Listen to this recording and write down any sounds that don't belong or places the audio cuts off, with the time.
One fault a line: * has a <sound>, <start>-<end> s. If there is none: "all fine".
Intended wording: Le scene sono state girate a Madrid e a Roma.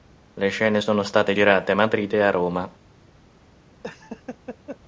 * has a laugh, 3.8-4.8 s